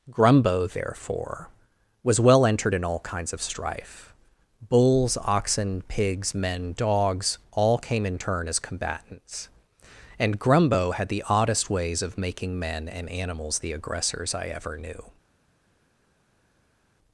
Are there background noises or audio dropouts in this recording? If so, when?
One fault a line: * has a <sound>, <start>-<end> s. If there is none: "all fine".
all fine